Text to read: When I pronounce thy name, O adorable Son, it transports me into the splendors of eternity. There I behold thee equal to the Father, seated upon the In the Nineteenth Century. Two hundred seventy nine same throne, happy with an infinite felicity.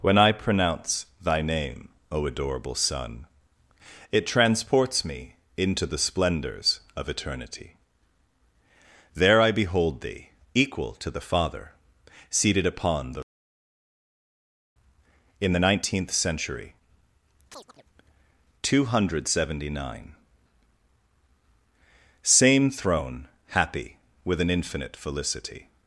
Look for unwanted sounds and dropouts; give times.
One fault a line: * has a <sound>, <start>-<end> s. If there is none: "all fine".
* has a chirp, 17.5-17.8 s